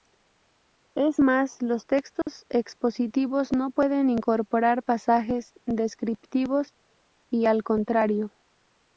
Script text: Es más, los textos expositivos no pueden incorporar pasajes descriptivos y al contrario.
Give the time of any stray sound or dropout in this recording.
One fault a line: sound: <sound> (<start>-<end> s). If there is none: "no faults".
sound: dropout (2.2-2.3 s)